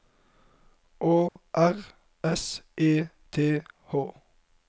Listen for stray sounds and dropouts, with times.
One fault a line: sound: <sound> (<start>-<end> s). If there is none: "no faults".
sound: dropout (1.3-1.4 s)